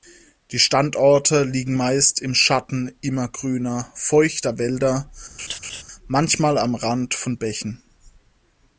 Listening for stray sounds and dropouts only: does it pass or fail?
fail